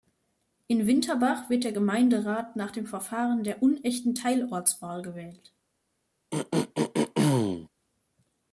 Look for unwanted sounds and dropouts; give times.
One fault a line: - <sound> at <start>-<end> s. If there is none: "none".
- throat clearing at 6.3-7.7 s